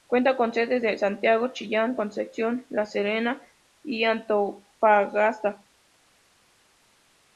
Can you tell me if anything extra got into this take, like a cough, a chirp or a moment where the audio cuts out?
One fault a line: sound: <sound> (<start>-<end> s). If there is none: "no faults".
no faults